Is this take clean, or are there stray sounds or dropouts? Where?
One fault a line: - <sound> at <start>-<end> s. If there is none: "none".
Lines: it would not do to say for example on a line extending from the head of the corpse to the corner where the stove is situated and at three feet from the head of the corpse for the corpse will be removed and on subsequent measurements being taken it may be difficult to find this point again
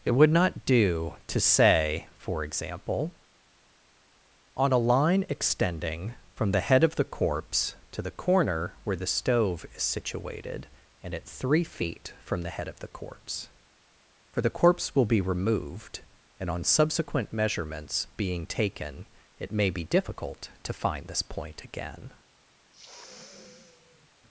- sniff at 22.7-24.1 s